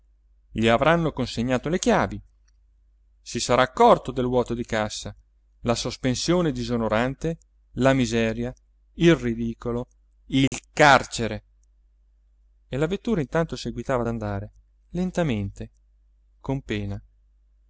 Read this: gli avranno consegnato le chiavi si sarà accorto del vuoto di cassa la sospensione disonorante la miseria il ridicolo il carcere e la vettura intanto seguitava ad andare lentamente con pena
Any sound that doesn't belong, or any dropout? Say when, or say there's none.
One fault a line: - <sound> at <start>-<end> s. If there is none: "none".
- dropout at 10.5-10.5 s